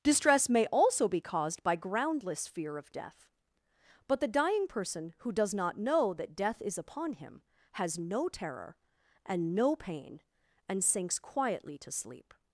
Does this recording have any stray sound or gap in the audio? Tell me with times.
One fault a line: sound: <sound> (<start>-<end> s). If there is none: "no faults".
no faults